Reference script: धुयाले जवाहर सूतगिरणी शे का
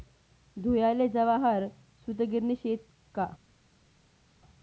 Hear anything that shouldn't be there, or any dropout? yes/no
no